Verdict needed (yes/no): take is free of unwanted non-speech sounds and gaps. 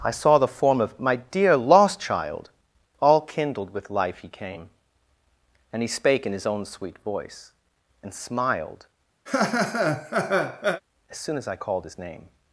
no